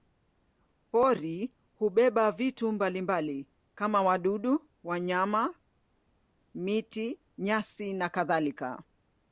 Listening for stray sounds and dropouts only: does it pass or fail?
pass